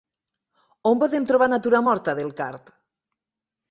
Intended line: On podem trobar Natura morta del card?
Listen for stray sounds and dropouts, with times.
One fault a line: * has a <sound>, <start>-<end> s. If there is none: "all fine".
all fine